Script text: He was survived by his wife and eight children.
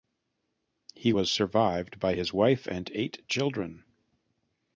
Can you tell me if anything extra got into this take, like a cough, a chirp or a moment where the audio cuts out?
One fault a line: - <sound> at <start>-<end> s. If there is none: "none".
none